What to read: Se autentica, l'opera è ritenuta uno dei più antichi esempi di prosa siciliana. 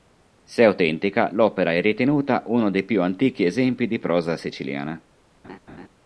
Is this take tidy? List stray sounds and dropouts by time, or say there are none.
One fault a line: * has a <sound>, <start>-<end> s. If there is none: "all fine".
* has a laugh, 5.4-5.9 s